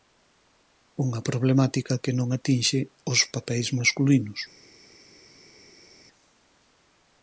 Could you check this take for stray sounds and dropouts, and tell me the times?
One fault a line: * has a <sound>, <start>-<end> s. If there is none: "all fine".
all fine